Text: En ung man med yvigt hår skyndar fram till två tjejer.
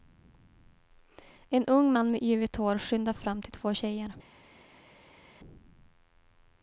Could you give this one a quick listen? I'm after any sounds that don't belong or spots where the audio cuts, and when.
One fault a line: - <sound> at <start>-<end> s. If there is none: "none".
none